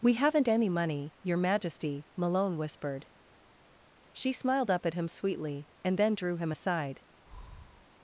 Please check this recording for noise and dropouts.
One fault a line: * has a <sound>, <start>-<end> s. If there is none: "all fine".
* has a breath, 7.3-7.9 s